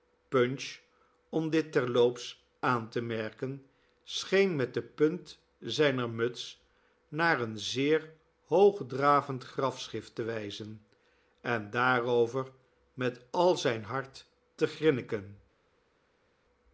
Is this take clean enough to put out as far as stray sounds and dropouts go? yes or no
yes